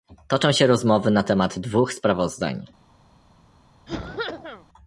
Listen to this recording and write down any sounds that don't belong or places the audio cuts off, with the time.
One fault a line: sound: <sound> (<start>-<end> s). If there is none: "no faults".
sound: cough (3.9-4.7 s)